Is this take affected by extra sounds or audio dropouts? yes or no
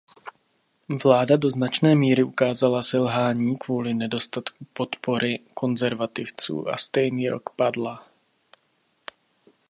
no